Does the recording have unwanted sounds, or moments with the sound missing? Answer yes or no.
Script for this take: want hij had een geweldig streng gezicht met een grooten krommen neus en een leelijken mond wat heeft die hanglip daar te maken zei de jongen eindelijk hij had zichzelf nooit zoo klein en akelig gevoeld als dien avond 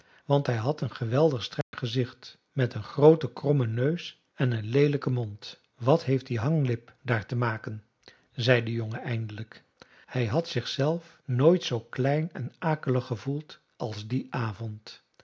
yes